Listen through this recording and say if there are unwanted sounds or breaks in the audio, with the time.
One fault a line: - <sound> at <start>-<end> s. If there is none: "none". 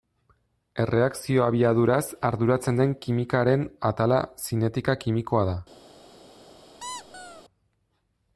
- squeak at 6.8-7.4 s